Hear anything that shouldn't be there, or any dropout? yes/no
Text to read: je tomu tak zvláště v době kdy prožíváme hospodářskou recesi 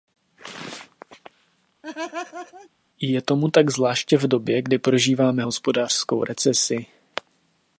yes